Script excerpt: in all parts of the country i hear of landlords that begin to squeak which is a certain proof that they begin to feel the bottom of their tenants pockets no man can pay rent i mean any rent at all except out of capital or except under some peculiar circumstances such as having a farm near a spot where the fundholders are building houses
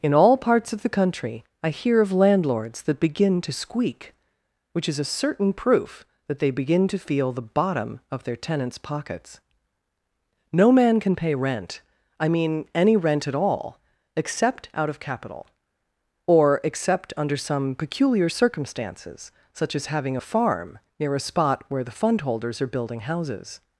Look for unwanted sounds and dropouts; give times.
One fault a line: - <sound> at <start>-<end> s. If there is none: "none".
none